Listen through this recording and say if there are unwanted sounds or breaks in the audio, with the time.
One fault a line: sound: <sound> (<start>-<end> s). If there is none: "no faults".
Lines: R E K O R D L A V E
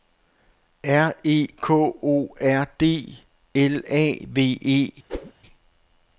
sound: whoosh (5.1-5.3 s)